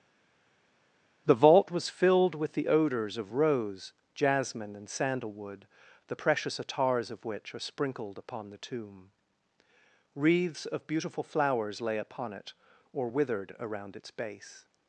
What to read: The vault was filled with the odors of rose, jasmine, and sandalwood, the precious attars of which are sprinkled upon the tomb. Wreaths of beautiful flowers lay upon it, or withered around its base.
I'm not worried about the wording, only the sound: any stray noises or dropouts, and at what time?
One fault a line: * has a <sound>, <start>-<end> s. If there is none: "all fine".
all fine